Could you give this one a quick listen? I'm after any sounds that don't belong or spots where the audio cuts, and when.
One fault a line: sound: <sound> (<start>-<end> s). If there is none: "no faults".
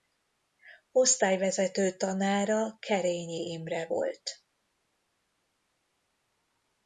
no faults